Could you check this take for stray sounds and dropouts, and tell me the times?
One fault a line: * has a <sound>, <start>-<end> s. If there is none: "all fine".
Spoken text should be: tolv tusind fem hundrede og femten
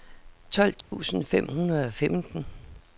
* has a dropout, 0.8-0.9 s